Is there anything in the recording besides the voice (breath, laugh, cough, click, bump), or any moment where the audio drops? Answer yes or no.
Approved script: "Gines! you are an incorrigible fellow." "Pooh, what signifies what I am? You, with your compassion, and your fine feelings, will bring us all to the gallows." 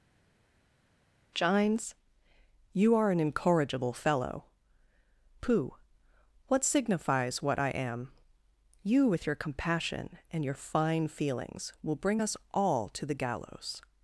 no